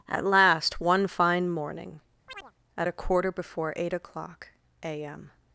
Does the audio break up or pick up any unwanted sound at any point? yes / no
yes